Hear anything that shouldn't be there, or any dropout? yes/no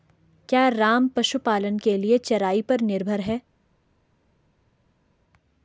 no